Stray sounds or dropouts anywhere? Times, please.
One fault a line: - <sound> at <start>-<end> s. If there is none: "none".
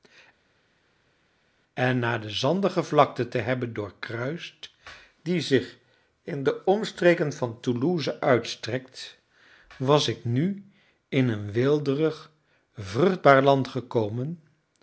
none